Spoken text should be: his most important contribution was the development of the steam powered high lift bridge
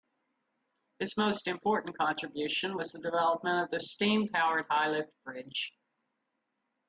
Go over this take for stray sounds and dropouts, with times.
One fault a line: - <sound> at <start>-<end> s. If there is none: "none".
none